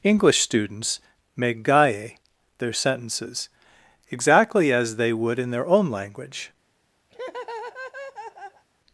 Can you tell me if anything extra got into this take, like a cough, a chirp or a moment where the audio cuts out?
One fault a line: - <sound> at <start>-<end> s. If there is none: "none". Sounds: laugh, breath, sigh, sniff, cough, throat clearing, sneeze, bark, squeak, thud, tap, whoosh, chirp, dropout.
- laugh at 7.1-8.6 s